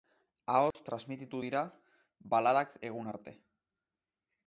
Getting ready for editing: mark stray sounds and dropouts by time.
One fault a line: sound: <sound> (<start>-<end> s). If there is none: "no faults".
sound: dropout (0.7-0.7 s)